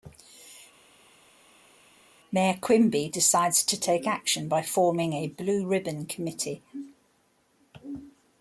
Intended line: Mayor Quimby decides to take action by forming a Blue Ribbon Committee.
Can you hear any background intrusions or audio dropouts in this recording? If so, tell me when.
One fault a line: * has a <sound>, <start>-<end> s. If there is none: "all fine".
all fine